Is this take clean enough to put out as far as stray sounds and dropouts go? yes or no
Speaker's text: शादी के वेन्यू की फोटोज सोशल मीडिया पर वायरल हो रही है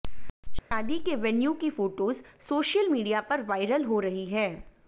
no